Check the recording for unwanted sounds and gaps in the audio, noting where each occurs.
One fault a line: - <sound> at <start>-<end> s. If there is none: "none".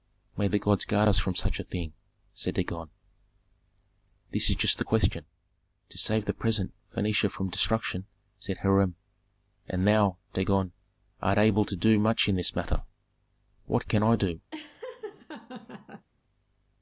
- laugh at 14.5-16.1 s